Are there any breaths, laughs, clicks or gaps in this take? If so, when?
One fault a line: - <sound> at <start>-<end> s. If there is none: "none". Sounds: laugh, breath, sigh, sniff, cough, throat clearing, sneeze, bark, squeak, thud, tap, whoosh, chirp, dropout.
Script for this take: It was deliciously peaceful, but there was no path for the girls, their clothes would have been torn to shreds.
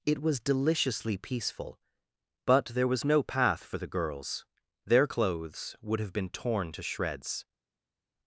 none